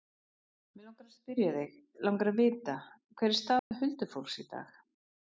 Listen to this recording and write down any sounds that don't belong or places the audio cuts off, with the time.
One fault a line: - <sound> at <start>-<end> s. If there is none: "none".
- dropout at 3.6-3.7 s